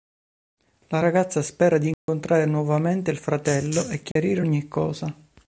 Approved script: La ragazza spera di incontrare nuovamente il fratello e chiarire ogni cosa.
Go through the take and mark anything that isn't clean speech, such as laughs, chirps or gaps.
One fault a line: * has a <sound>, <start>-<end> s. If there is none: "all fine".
* has a dropout, 1.9-2.1 s
* has a dropout, 4.1-4.2 s